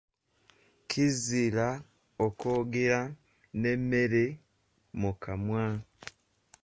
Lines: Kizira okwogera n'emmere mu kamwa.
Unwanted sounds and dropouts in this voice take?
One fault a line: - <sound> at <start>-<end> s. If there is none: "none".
none